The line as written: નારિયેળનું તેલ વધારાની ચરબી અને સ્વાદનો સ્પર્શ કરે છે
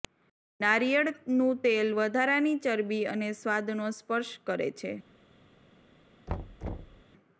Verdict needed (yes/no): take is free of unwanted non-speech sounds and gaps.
no